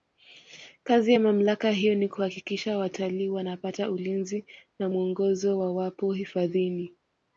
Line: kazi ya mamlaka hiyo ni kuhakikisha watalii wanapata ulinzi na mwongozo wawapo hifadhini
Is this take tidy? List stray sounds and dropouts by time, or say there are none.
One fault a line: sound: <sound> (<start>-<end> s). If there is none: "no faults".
no faults